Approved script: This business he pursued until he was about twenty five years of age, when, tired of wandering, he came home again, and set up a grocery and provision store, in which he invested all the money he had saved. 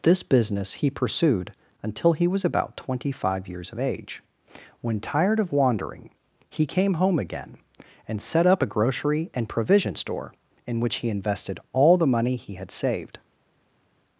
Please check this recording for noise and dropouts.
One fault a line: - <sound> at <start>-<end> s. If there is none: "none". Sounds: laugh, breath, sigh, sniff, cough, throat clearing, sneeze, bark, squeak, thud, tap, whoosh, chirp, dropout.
none